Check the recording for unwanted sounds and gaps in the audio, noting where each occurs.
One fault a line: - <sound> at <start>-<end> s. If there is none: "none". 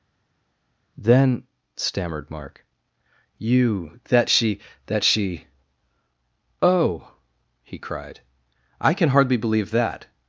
none